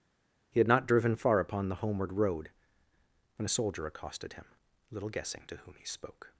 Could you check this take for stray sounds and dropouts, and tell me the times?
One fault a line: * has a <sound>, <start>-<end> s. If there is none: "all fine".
all fine